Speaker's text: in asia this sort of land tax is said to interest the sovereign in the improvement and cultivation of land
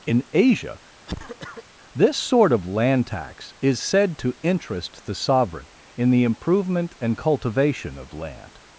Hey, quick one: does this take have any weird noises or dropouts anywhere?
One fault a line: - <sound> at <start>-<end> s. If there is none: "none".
- cough at 1.1-1.6 s